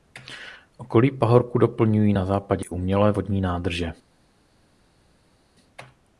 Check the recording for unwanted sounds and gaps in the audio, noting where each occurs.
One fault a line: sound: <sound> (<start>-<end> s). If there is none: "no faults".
no faults